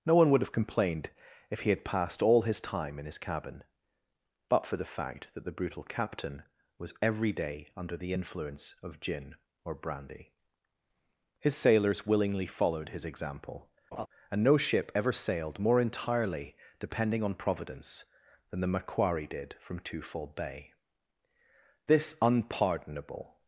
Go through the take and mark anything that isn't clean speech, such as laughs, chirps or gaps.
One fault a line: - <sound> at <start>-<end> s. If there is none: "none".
- laugh at 13.9-14.1 s